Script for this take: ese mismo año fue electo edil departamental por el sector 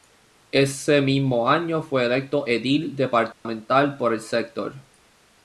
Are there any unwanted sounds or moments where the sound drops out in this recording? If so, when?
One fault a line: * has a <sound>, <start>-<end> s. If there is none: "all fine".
* has a dropout, 3.3-3.5 s